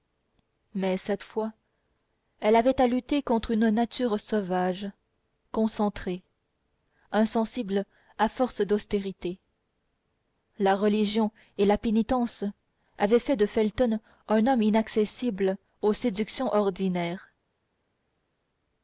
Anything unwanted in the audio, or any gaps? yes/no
no